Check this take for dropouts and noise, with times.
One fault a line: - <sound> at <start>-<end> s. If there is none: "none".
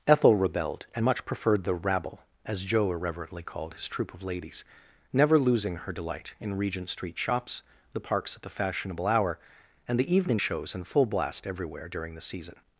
none